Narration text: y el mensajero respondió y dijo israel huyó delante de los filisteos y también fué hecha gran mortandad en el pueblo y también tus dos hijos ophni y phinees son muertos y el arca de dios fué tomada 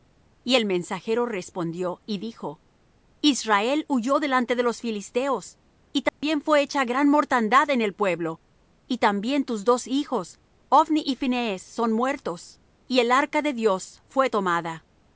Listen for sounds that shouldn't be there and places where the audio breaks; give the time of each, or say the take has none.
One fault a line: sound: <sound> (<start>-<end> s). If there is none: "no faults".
sound: dropout (6.1-6.2 s)